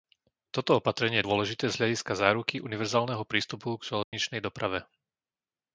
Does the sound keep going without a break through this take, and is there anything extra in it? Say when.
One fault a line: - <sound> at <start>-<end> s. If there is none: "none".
- dropout at 4.0-4.1 s